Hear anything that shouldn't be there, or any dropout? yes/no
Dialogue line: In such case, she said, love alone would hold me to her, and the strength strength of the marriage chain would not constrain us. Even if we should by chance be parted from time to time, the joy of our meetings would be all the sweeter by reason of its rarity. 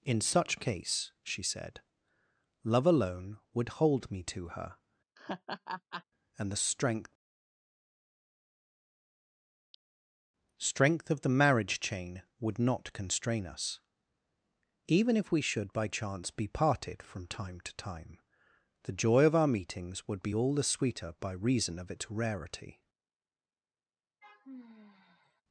yes